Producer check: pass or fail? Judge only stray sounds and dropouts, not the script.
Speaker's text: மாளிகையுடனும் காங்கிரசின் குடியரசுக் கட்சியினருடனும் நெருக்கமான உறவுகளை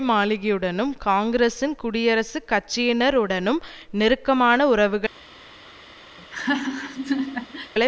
fail